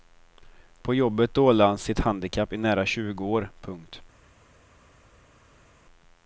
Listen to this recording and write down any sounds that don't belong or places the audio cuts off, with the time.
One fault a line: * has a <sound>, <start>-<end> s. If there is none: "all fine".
all fine